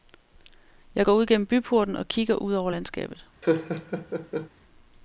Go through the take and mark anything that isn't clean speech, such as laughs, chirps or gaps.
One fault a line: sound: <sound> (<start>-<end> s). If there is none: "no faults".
sound: laugh (3.4-4.5 s)